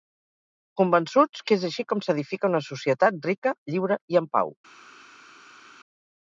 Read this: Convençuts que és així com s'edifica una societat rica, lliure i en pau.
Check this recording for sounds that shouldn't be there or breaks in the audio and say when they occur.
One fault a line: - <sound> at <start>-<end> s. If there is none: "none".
none